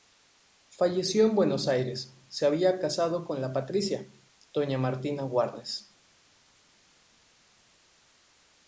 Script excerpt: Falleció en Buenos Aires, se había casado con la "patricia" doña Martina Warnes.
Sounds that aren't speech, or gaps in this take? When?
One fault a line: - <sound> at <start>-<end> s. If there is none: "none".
none